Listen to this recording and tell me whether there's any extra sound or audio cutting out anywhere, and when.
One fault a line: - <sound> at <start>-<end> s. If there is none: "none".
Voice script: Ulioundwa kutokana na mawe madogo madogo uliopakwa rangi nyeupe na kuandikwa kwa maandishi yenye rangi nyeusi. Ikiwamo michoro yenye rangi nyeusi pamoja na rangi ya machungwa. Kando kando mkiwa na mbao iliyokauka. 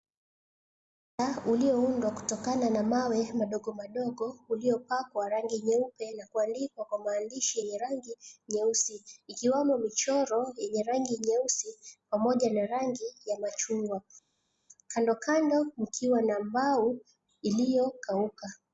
none